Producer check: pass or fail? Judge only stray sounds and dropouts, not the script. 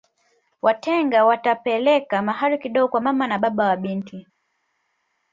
pass